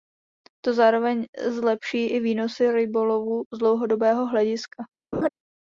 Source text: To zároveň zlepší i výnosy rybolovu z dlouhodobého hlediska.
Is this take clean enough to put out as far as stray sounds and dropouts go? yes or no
no